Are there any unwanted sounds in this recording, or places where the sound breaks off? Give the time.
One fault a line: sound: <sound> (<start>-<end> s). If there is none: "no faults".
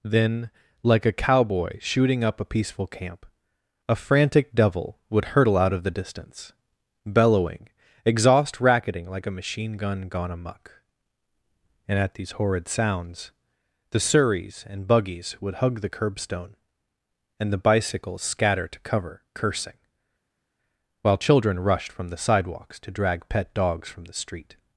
no faults